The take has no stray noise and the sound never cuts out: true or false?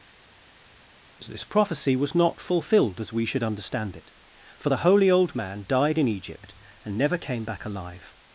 true